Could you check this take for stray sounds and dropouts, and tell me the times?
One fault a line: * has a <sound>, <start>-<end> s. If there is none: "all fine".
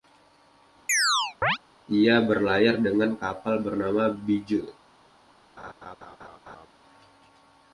* has a chirp, 0.9-1.6 s
* has a laugh, 5.6-6.7 s